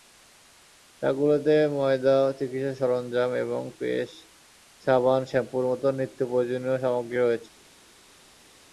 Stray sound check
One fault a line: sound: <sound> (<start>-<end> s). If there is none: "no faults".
no faults